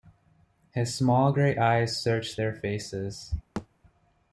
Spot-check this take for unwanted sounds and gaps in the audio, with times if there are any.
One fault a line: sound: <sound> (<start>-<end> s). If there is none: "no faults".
sound: thud (3.6-3.7 s)